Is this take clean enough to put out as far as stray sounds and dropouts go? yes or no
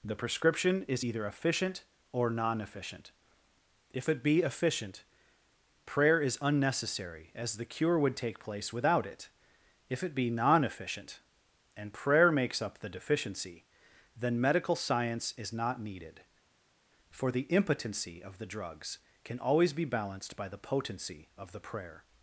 yes